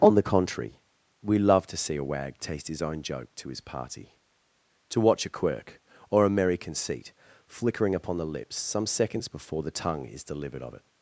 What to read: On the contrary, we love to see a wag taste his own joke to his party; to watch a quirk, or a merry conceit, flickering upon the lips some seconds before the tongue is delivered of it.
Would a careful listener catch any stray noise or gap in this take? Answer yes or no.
no